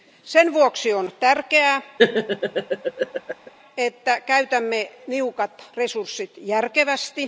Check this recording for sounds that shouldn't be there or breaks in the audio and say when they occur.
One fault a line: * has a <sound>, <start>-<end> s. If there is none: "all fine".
* has a laugh, 2.0-3.5 s